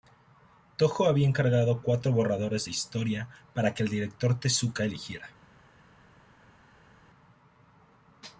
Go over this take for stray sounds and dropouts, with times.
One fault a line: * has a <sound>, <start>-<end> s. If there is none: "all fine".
all fine